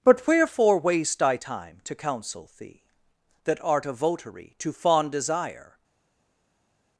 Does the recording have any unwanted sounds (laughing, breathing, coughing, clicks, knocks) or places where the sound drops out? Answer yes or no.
no